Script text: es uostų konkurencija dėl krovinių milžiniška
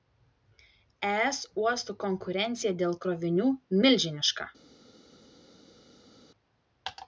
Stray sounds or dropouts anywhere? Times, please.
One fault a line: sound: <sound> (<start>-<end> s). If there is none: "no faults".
no faults